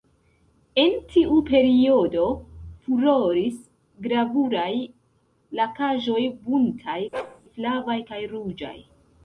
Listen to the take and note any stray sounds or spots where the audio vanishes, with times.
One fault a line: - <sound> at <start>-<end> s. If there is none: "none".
- bark at 7.1-7.4 s